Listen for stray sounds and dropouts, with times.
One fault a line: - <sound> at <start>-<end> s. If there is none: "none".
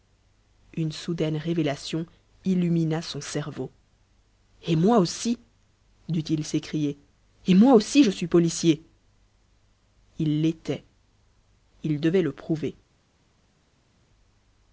none